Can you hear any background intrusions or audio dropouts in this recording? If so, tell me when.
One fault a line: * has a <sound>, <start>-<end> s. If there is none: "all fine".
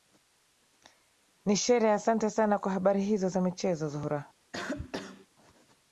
* has a cough, 4.5-5.3 s